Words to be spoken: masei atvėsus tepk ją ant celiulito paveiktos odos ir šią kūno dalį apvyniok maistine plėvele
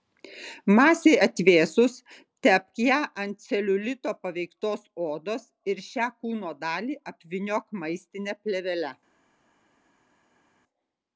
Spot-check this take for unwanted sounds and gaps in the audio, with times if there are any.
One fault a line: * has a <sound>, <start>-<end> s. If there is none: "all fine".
all fine